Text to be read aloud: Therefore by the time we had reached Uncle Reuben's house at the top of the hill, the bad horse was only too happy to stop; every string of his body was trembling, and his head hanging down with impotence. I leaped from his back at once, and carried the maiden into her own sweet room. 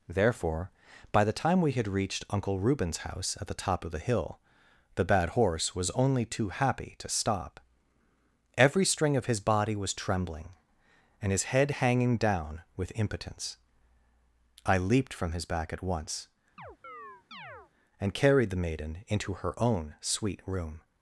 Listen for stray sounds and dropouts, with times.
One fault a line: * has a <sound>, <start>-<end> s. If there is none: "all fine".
* has a chirp, 16.6-17.7 s